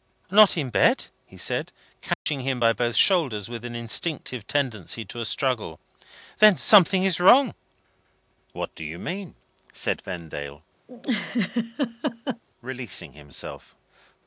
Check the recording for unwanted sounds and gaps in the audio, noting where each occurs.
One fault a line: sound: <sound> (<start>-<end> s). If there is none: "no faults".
sound: dropout (2.1-2.3 s)
sound: laugh (10.9-12.4 s)